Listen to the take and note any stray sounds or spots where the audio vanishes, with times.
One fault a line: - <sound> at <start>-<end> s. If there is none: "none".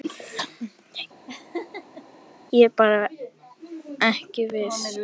- laugh at 1.3-2.0 s